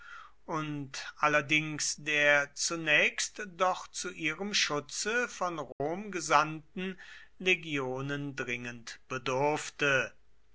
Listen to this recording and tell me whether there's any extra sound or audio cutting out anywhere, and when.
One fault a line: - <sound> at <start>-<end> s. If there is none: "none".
- dropout at 5.7-5.8 s